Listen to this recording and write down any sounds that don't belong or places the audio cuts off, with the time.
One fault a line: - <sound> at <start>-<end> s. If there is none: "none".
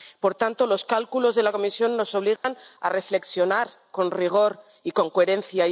- dropout at 2.4-2.4 s